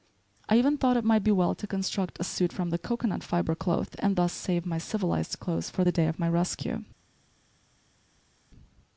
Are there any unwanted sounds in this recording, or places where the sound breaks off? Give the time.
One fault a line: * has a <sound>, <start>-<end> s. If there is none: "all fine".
all fine